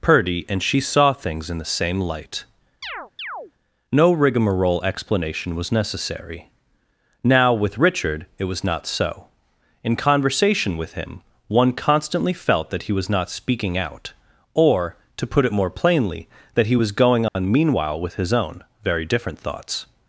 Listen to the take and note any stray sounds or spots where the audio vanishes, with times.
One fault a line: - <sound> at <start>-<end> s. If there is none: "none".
- chirp at 2.8-3.5 s
- dropout at 17.3-17.4 s